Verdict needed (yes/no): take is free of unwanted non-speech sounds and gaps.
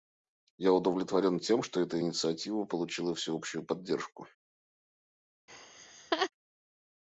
no